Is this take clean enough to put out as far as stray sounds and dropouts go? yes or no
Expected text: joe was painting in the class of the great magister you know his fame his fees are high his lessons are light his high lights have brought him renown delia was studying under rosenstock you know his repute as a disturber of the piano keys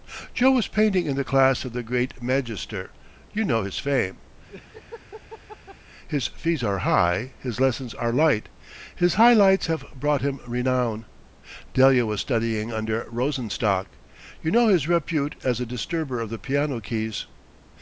no